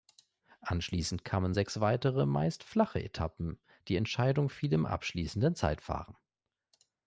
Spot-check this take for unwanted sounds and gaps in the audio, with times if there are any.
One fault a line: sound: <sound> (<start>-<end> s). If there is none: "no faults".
no faults